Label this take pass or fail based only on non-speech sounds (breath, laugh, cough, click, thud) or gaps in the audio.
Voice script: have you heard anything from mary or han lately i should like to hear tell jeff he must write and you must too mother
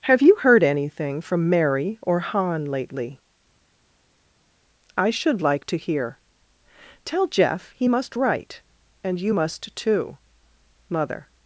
pass